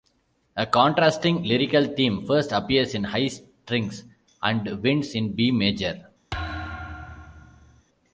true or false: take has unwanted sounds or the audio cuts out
true